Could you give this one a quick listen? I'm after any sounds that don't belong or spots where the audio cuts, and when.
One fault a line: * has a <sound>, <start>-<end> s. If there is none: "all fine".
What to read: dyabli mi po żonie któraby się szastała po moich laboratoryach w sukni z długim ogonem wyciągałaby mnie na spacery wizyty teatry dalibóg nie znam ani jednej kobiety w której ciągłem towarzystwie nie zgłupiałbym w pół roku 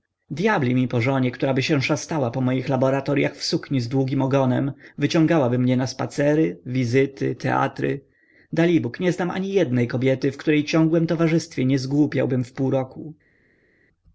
all fine